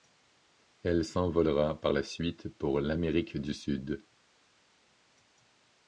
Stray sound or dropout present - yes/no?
no